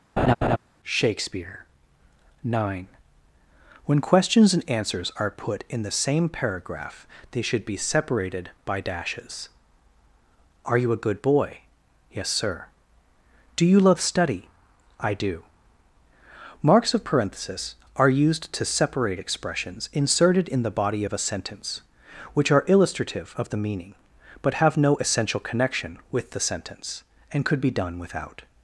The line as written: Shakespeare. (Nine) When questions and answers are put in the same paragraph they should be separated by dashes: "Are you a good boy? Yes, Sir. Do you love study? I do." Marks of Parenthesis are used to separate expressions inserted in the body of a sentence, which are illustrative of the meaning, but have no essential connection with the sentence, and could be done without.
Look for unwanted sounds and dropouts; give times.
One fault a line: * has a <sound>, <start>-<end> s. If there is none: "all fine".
* has a laugh, 0.2-0.6 s